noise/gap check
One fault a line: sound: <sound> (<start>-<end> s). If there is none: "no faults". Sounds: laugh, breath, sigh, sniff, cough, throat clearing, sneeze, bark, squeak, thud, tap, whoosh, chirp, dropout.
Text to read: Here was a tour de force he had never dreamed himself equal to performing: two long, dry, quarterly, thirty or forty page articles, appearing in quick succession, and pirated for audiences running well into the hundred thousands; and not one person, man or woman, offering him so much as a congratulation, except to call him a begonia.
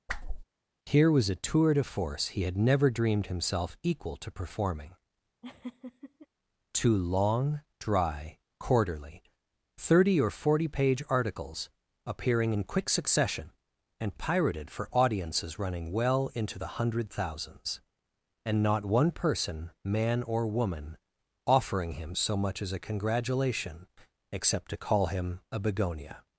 sound: whoosh (0.1-0.4 s)
sound: laugh (5.4-6.3 s)